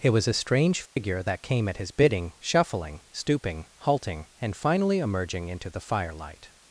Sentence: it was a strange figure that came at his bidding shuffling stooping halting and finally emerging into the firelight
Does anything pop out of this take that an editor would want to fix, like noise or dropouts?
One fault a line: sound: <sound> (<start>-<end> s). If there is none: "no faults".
sound: dropout (0.9-1.0 s)